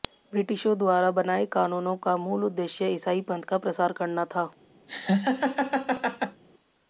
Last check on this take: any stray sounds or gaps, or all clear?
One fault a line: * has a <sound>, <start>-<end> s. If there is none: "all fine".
* has a laugh, 4.9-6.4 s